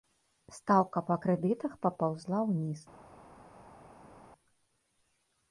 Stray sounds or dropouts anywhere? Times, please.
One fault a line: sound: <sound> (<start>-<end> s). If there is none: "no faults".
no faults